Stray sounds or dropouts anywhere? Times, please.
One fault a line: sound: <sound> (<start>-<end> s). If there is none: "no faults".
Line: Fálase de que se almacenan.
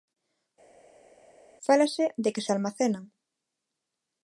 no faults